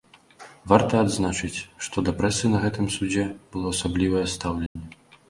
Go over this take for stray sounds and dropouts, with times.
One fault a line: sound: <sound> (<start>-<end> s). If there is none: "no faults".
sound: dropout (4.7-4.8 s)